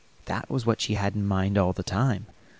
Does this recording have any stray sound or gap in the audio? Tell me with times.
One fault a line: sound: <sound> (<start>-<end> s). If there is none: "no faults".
no faults